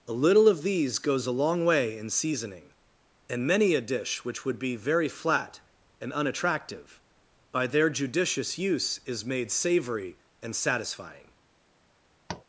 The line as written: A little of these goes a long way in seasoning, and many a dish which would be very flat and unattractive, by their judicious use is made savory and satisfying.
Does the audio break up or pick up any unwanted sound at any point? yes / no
yes